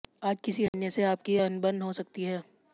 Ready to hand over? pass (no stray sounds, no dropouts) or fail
fail